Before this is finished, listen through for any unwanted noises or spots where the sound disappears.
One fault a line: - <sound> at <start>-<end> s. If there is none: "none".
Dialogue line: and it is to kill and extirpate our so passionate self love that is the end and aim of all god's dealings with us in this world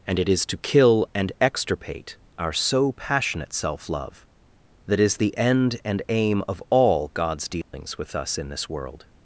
- dropout at 7.6-7.7 s